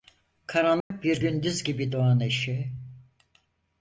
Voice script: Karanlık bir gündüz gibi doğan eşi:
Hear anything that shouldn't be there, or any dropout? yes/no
yes